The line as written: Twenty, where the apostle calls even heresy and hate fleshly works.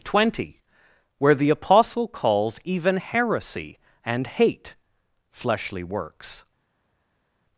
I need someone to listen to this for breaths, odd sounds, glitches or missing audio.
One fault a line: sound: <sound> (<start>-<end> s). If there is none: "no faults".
no faults